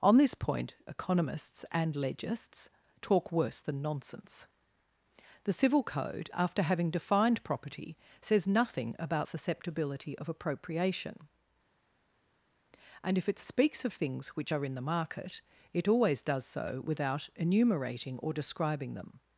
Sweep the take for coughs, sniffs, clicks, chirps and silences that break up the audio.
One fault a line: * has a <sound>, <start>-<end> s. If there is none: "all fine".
all fine